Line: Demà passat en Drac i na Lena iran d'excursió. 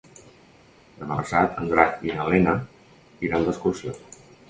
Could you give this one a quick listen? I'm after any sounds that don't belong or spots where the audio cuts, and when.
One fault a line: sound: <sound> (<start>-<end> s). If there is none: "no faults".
no faults